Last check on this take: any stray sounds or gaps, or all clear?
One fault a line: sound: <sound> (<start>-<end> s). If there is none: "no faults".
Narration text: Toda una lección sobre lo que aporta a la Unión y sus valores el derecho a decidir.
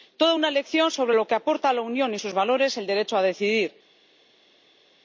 no faults